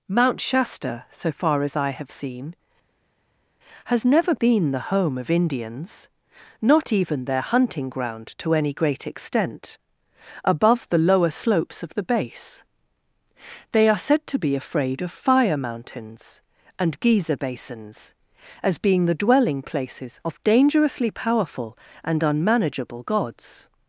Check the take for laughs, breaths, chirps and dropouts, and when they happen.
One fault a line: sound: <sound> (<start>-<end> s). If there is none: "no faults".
no faults